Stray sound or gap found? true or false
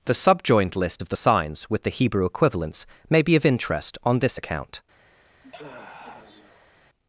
true